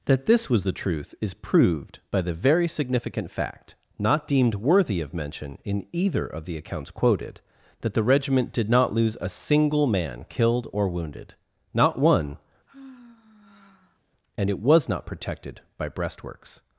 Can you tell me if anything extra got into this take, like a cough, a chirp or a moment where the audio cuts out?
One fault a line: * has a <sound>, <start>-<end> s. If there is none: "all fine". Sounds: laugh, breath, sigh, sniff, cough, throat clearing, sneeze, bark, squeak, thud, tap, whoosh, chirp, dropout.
* has a sigh, 12.7-14.0 s